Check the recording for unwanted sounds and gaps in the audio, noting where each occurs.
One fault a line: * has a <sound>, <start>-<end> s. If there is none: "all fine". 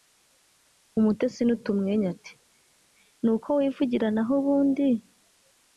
all fine